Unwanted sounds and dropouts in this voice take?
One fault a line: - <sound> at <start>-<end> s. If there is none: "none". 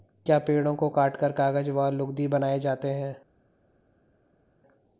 none